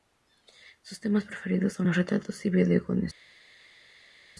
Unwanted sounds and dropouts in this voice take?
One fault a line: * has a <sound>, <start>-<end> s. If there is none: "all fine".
all fine